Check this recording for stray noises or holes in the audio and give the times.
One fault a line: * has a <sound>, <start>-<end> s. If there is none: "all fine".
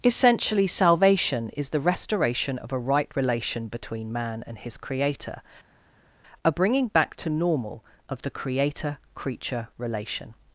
all fine